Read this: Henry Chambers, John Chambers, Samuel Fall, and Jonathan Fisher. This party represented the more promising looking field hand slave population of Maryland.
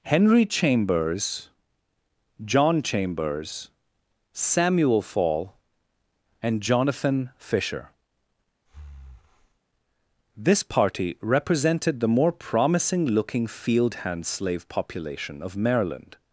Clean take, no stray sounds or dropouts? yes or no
no